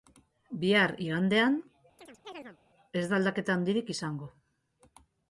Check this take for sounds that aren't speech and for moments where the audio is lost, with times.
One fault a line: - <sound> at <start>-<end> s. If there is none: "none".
- chirp at 2.0-2.6 s